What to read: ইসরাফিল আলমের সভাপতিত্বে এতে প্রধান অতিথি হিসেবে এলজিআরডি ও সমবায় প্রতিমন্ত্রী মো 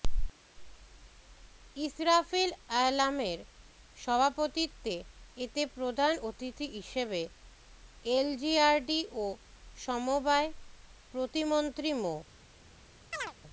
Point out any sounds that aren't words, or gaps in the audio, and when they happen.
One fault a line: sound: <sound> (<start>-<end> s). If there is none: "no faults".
sound: chirp (13.1-13.3 s)